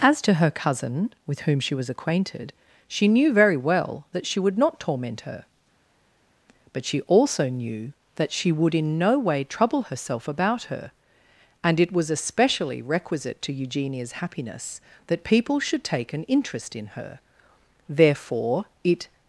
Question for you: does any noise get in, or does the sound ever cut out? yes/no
no